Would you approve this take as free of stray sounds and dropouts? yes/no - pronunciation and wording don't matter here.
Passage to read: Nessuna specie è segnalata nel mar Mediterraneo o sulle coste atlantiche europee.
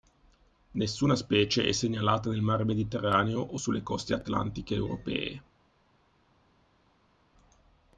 yes